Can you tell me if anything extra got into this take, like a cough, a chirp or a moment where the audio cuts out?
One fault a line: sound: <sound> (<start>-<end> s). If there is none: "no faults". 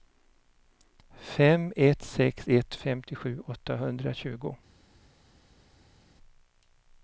no faults